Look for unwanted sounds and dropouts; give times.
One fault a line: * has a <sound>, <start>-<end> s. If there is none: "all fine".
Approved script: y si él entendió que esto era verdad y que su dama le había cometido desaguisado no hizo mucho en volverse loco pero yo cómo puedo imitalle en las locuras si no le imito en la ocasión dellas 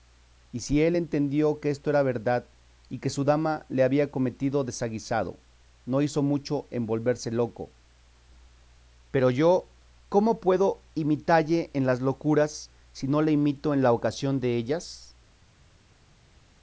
all fine